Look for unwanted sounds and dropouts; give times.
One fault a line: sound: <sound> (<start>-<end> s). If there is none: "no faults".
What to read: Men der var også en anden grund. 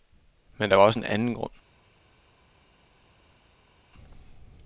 no faults